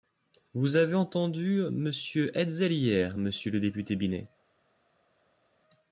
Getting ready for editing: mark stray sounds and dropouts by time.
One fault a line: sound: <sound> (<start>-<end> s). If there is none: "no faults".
no faults